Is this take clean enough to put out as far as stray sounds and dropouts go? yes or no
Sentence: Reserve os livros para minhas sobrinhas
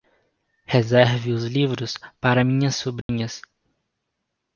no